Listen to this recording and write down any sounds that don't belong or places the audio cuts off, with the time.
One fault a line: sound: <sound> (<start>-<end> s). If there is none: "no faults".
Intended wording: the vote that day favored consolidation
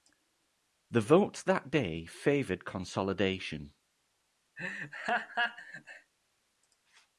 sound: laugh (4.6-6.1 s)